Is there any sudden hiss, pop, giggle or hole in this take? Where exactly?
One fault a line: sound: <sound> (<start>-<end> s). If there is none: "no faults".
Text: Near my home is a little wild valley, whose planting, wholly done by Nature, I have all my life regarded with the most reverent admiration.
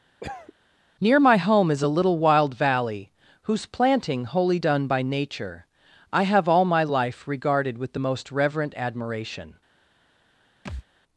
sound: cough (0.2-0.5 s)
sound: thud (10.6-10.8 s)